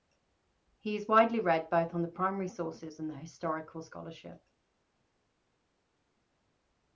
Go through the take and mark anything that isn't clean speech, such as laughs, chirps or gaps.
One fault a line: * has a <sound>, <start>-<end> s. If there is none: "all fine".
all fine